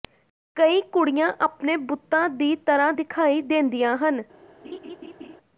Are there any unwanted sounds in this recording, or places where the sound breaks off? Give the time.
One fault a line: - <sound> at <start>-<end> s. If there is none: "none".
- laugh at 4.6-5.4 s